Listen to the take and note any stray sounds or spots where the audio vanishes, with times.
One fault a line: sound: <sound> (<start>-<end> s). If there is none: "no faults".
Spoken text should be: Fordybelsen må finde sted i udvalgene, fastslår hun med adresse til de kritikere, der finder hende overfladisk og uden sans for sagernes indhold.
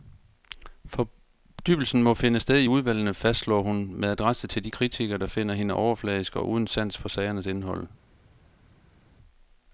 no faults